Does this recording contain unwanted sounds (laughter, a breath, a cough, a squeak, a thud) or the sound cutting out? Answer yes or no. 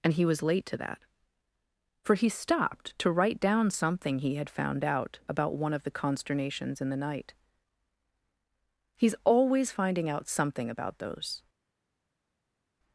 no